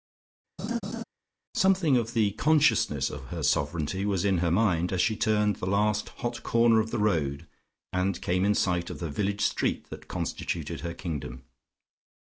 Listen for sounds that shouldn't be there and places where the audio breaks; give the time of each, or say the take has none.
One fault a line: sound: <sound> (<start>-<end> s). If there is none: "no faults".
sound: laugh (0.6-1.0 s)